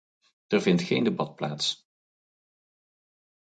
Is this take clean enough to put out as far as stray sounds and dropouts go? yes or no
yes